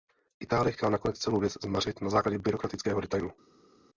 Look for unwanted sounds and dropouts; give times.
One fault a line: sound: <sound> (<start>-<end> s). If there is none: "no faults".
no faults